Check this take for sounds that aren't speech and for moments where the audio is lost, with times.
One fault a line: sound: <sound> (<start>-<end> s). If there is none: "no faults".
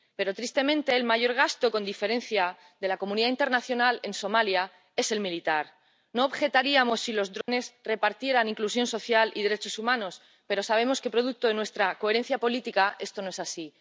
sound: dropout (7.4-7.5 s)